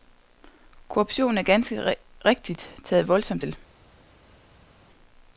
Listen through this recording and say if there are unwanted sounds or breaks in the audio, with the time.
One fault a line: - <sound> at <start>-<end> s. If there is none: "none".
none